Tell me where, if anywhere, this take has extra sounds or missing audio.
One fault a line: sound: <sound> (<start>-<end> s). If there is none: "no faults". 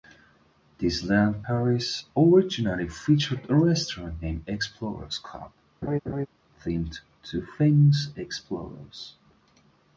sound: laugh (5.8-6.3 s)